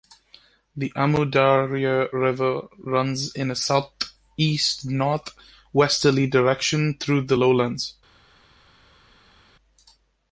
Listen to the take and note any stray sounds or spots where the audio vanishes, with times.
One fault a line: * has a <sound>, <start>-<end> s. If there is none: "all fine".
all fine